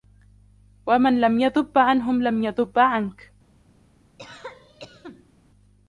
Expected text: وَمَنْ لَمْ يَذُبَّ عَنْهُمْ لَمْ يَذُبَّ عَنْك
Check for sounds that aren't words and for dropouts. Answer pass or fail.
fail